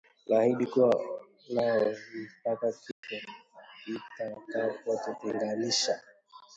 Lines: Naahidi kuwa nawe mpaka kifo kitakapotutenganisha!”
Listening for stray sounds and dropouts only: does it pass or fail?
fail